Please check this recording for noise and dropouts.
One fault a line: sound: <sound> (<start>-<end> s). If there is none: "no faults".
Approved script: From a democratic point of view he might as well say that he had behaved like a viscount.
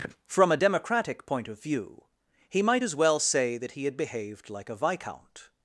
no faults